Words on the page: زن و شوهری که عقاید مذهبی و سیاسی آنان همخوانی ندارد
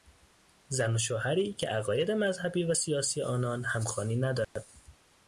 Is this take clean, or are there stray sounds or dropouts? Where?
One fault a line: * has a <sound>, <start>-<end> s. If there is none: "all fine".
* has a dropout, 4.4-4.6 s